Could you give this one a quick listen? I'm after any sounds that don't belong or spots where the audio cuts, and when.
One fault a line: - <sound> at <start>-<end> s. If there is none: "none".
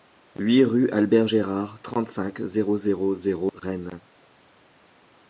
none